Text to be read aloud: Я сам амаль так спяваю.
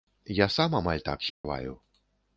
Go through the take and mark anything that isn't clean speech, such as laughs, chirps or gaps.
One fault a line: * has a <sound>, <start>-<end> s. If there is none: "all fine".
* has a dropout, 1.3-1.4 s